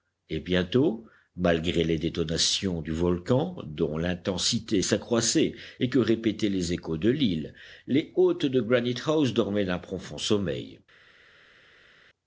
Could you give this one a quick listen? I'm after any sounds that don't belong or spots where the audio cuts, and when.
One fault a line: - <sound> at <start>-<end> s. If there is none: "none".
none